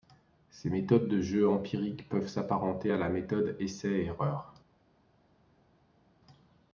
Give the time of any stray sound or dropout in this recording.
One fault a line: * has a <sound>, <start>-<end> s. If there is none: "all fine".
all fine